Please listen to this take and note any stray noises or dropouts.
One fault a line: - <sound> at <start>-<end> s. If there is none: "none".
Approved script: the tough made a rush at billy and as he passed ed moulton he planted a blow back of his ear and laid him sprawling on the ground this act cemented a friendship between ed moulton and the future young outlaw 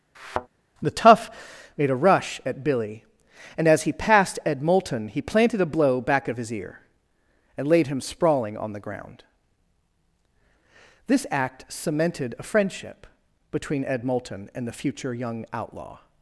- thud at 0.1-0.5 s